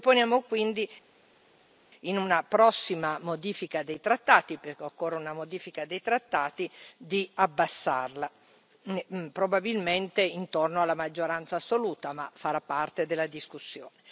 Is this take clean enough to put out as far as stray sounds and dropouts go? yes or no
yes